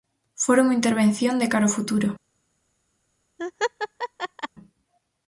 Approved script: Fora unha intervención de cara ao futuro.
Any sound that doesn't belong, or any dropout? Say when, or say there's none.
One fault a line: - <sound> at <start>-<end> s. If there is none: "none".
- laugh at 3.4-4.5 s